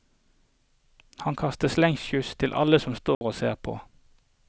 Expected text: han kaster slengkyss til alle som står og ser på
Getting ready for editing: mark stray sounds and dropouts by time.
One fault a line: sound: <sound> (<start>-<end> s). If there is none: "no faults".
sound: dropout (3.1-3.2 s)